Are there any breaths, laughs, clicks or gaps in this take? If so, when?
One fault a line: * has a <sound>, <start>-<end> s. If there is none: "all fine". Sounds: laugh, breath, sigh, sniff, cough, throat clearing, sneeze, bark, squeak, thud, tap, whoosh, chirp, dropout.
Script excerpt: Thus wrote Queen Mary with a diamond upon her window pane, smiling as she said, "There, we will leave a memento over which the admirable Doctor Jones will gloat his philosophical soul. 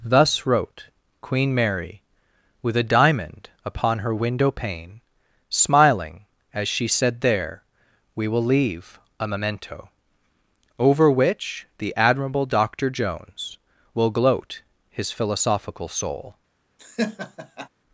* has a laugh, 16.8-17.7 s